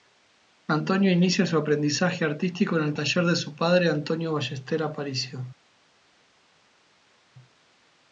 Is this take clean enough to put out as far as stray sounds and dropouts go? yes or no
yes